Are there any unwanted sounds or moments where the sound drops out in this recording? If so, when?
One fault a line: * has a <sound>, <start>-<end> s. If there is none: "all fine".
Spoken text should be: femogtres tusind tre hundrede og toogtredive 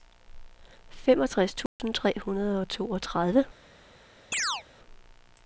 * has a dropout, 1.7-1.8 s
* has a chirp, 4.3-4.6 s